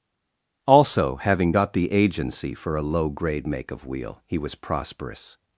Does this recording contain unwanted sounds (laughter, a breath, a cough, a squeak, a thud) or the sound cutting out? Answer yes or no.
no